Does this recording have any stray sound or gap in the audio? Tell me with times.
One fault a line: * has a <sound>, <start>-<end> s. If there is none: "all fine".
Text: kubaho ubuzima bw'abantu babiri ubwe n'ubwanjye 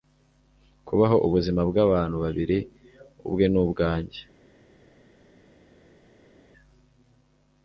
all fine